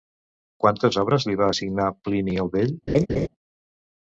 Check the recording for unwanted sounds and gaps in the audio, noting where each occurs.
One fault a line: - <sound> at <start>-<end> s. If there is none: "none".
- laugh at 2.9-3.3 s